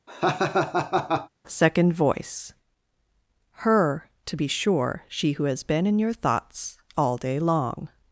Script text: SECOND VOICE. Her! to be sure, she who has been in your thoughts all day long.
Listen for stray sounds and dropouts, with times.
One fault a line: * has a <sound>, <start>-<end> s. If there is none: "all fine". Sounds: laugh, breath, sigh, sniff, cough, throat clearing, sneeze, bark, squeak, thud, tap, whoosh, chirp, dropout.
* has a laugh, 0.1-1.3 s